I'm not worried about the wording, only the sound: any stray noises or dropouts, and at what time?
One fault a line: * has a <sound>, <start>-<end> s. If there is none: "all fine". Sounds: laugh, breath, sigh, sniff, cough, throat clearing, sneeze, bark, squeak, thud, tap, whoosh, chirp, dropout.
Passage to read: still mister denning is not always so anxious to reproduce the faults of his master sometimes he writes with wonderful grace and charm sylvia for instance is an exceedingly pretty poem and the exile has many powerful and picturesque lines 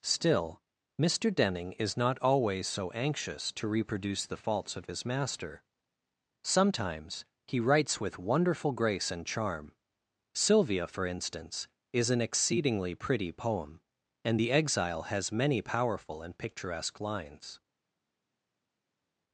all fine